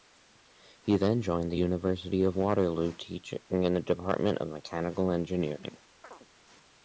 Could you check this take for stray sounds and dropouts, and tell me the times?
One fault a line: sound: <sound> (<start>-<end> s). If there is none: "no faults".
sound: chirp (6.0-6.3 s)